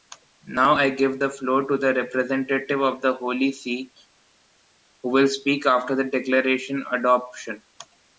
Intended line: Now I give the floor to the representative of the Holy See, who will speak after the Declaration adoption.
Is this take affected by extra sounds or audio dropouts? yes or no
no